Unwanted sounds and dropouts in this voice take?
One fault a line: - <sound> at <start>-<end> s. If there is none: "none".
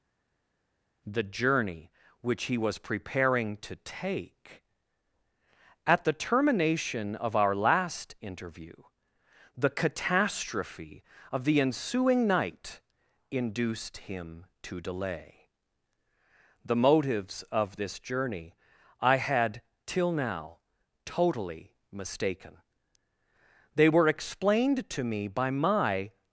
none